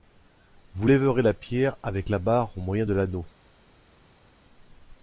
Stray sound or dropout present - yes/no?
no